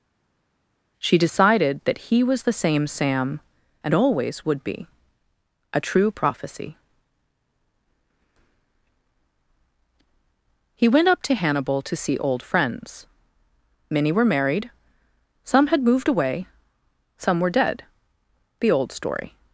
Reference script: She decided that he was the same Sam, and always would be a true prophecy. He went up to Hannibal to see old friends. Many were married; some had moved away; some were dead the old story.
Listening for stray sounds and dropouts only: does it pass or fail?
pass